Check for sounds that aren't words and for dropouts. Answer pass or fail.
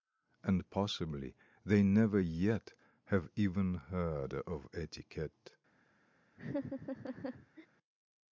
fail